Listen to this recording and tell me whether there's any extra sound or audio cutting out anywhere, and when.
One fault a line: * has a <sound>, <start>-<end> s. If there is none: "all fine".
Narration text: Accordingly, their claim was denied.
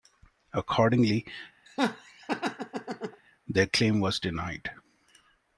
* has a laugh, 1.7-3.2 s